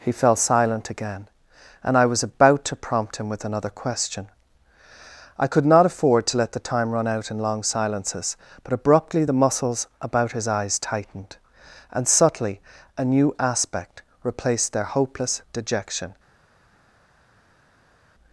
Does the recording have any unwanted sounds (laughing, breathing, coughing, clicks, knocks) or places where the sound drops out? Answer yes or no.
no